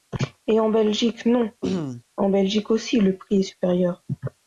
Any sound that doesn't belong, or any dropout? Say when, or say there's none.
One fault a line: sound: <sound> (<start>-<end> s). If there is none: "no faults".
sound: throat clearing (1.6-2.0 s)